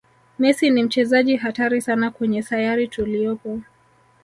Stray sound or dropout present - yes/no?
no